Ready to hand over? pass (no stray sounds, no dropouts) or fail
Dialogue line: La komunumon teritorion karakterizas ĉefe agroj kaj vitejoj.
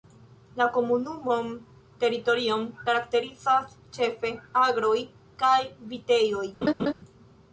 fail